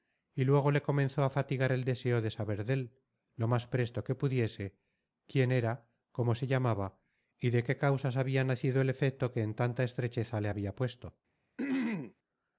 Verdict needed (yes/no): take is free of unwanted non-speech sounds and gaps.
no